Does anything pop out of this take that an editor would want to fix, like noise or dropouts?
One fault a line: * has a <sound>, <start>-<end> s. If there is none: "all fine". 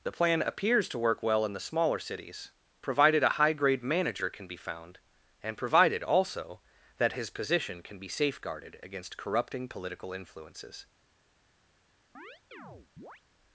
* has a chirp, 12.1-13.2 s